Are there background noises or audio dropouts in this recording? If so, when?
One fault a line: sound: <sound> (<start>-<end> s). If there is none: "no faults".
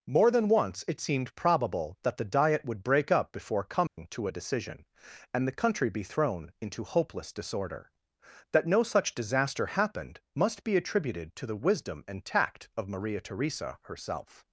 sound: dropout (3.9-4.0 s)